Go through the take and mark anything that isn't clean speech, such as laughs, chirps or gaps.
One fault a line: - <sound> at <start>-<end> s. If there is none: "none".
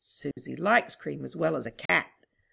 - dropout at 0.3-0.4 s
- dropout at 1.9-1.9 s